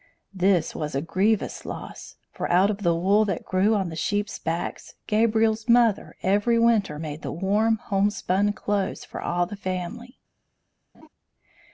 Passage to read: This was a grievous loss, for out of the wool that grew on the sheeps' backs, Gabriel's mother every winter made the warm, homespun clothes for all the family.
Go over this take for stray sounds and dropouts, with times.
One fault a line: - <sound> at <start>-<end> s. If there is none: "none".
- laugh at 10.9-11.1 s